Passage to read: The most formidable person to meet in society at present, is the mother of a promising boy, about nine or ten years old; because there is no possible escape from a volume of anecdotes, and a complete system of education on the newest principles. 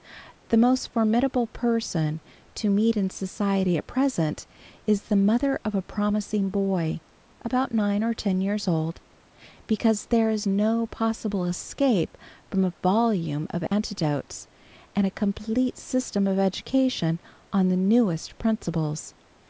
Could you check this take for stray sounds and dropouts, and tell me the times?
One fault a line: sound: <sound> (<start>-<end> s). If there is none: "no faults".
sound: dropout (13.7-13.7 s)